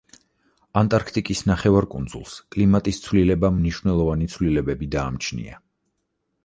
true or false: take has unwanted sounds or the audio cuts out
false